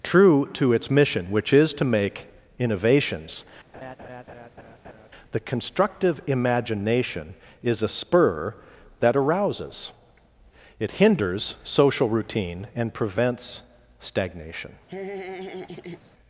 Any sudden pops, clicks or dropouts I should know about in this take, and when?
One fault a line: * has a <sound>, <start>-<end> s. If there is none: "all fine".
* has a laugh, 3.7-5.1 s
* has a laugh, 14.9-16.1 s